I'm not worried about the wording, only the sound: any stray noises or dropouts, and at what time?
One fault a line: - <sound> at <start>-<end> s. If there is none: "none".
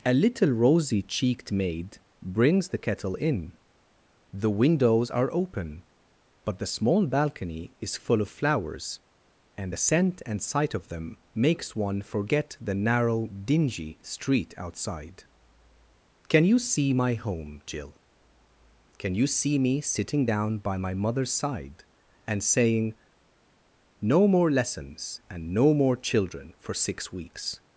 none